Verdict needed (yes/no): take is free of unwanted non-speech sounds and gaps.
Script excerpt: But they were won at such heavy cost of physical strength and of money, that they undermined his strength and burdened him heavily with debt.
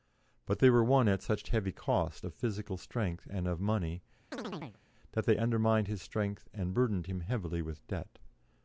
no